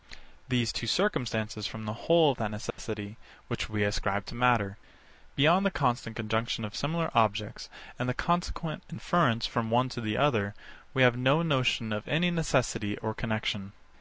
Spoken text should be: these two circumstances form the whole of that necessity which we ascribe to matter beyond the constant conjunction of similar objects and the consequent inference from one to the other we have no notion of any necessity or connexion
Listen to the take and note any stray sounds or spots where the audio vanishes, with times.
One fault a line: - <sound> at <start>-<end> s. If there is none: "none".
- dropout at 2.7-2.8 s